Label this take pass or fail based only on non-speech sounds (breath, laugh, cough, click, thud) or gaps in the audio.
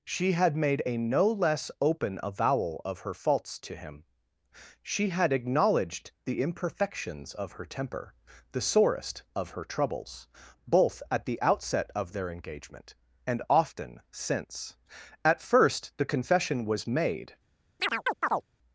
fail